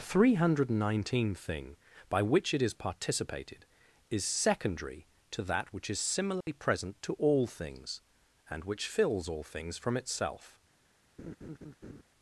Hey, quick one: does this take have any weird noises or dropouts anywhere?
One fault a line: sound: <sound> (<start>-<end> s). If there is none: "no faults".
sound: dropout (6.4-6.5 s)
sound: laugh (11.2-12.0 s)